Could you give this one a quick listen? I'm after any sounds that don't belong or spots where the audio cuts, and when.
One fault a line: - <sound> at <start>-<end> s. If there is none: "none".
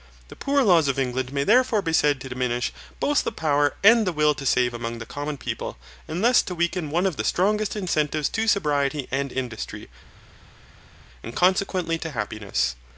none